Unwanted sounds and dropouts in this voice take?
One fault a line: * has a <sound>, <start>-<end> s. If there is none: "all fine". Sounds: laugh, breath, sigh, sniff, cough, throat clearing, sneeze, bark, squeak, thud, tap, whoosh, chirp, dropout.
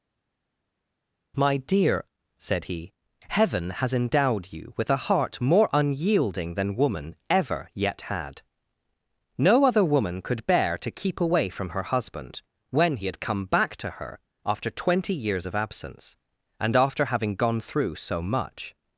all fine